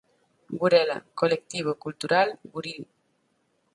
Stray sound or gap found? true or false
false